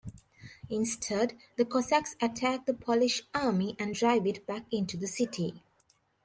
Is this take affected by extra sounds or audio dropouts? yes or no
no